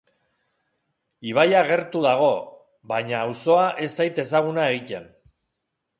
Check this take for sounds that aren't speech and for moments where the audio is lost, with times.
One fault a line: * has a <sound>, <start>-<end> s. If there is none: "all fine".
all fine